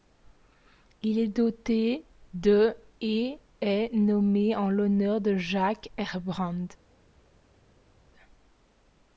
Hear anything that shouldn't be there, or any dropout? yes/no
no